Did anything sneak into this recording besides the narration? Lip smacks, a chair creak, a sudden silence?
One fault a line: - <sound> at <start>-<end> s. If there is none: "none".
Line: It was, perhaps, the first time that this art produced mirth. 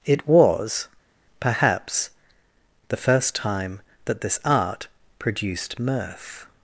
none